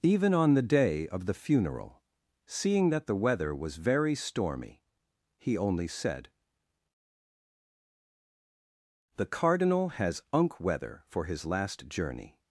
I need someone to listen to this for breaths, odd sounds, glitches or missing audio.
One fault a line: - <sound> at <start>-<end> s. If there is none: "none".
none